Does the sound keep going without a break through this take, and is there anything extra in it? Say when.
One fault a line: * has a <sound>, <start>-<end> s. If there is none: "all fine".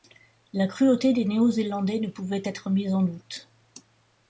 all fine